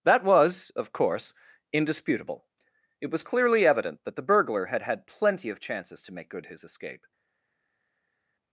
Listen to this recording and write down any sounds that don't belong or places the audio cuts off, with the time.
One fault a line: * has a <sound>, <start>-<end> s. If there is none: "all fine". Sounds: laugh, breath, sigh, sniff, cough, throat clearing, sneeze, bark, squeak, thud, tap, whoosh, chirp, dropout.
all fine